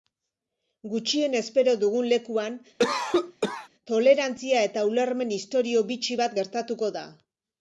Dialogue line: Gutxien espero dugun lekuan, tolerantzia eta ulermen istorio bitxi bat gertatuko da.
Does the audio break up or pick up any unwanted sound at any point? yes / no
yes